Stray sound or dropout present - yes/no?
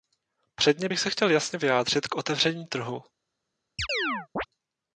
yes